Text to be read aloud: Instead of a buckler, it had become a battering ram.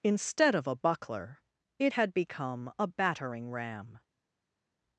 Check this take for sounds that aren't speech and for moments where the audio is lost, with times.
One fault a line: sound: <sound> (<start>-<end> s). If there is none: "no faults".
no faults